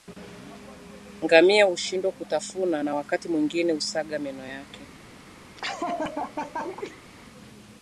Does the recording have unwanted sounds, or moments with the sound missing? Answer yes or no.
yes